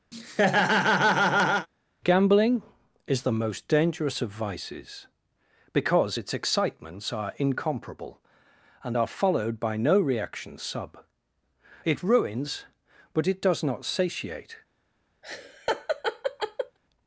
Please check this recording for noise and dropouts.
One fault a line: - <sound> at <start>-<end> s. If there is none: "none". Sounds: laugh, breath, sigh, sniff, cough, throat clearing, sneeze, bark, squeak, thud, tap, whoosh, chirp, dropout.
- laugh at 0.1-1.7 s
- laugh at 15.2-16.8 s